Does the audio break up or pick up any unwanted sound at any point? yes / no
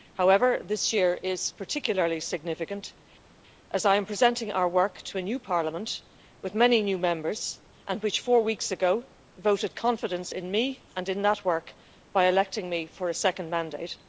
no